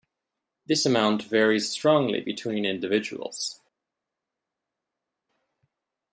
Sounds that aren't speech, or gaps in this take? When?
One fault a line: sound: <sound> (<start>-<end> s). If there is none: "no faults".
no faults